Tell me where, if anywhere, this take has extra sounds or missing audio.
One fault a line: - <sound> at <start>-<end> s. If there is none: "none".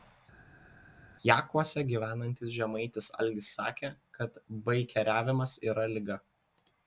none